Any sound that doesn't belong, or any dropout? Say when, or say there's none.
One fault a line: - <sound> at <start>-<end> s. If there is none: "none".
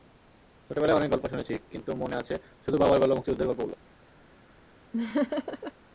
- laugh at 4.9-5.7 s